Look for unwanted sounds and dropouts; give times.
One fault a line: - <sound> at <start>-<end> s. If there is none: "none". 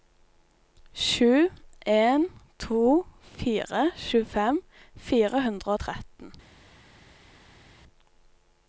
none